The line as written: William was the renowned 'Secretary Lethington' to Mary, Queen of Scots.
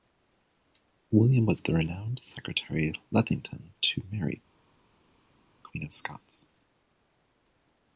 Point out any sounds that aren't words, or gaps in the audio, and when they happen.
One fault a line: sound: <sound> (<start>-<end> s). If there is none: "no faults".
no faults